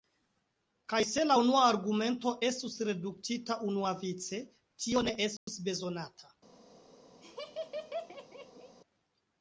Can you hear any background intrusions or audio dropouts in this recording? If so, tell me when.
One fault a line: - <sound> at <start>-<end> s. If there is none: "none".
- dropout at 5.4-5.5 s
- laugh at 7.2-8.8 s